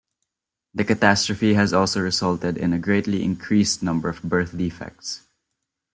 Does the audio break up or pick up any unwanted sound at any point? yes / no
no